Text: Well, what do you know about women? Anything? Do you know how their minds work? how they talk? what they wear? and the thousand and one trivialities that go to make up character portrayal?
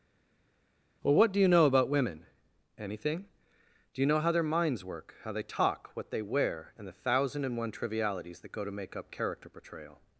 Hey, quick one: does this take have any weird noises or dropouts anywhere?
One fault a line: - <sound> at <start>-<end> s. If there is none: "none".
none